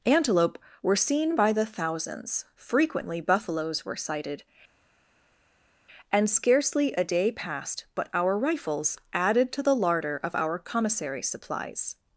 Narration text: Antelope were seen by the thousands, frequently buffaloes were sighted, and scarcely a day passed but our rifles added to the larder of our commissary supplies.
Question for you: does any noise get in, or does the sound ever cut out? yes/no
no